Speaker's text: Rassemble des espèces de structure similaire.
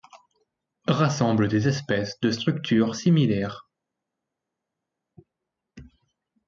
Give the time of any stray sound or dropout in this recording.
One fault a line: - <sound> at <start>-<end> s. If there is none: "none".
none